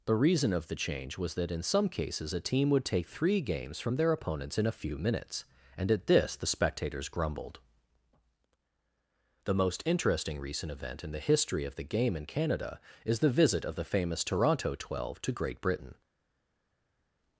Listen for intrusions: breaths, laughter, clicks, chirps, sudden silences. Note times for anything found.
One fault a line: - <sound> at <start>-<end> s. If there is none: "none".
none